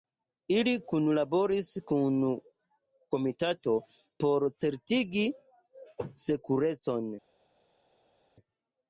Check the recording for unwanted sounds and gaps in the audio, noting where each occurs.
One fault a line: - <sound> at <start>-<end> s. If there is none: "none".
none